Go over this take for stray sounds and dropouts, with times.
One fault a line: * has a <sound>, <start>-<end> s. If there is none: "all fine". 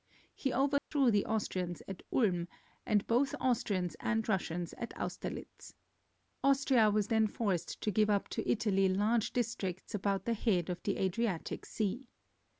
* has a dropout, 0.8-0.9 s